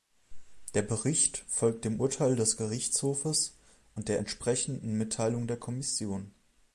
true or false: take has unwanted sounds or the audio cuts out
false